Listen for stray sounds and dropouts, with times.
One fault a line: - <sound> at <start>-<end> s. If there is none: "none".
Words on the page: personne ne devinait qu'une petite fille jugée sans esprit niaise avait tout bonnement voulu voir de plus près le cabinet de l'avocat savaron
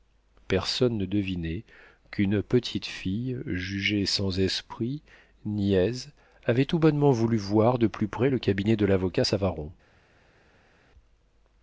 none